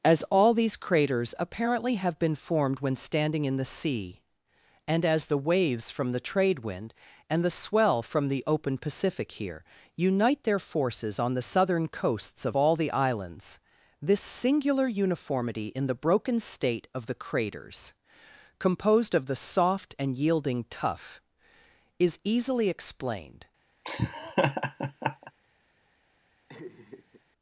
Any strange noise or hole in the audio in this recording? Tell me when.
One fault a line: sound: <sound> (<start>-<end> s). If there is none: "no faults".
sound: laugh (23.8-25.3 s)
sound: laugh (26.5-27.2 s)